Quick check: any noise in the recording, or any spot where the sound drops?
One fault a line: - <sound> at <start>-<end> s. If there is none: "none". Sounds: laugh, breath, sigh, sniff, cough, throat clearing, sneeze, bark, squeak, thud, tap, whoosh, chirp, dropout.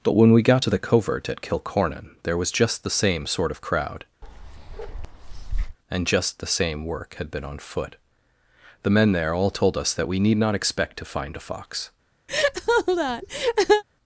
- bark at 4.2-5.8 s
- laugh at 12.3-13.8 s